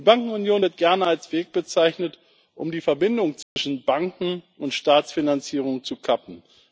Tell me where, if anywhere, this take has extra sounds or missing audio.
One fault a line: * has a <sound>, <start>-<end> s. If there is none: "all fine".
* has a dropout, 3.4-3.6 s